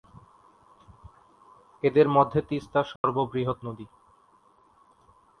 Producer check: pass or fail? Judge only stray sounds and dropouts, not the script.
fail